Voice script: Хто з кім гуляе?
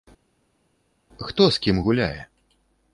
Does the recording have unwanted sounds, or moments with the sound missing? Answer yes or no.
no